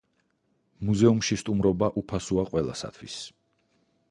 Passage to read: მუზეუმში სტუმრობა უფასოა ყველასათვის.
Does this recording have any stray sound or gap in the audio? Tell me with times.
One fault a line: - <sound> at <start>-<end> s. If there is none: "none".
none